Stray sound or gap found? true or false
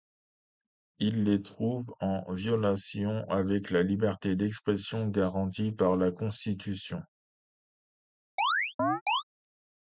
true